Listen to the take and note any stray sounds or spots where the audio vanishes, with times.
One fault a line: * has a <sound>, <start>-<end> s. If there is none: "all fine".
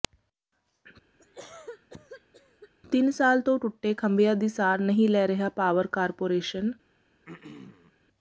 * has a cough, 1.2-2.7 s
* has a throat clearing, 7.3-7.9 s